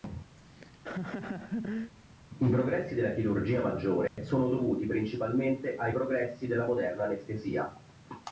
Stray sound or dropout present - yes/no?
yes